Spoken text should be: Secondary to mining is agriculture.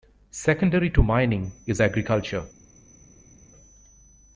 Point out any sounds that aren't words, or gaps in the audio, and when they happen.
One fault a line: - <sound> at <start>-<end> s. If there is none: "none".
none